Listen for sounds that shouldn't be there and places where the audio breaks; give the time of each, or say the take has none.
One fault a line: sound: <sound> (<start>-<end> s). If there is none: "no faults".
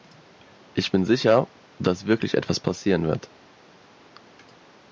no faults